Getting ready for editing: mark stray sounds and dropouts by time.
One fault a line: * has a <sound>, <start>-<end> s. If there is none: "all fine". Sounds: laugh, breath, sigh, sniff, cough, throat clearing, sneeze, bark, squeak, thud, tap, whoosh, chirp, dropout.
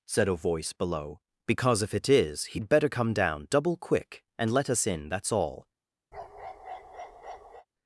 * has a bark, 6.1-7.7 s